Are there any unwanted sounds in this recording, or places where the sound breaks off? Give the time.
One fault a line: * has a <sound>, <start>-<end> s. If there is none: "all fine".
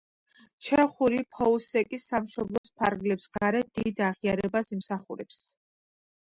* has a dropout, 2.6-2.6 s